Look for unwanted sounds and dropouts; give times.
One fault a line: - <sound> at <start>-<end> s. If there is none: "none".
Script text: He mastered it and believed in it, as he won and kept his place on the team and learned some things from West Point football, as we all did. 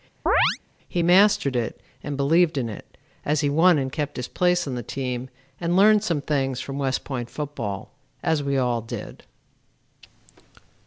- chirp at 0.3-0.6 s